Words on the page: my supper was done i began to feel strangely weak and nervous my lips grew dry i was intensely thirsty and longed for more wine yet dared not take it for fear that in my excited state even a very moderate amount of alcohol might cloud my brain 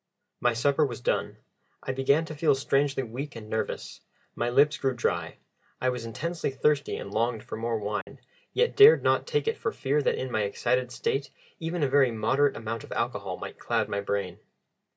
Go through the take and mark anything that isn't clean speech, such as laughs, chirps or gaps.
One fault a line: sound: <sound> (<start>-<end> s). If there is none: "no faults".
sound: dropout (8.0-8.1 s)